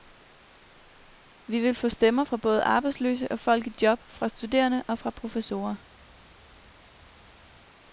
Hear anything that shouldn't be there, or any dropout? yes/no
no